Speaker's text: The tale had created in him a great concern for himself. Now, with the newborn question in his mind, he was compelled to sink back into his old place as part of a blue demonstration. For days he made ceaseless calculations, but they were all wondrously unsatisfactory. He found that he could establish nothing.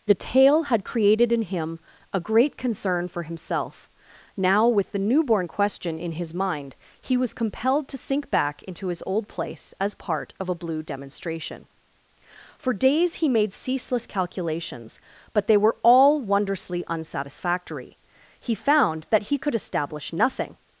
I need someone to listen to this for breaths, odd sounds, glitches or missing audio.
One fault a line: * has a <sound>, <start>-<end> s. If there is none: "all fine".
all fine